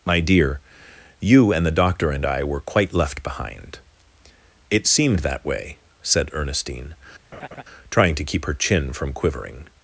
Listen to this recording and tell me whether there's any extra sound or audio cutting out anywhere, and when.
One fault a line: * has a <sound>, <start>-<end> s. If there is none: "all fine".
* has a laugh, 7.3-7.6 s